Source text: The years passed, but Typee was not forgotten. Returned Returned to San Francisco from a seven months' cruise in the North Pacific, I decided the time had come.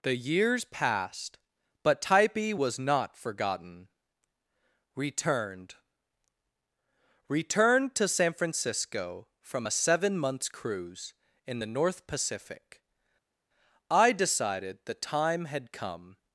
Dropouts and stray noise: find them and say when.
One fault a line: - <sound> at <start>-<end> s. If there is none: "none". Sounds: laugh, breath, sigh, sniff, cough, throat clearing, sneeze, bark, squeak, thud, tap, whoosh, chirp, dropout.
none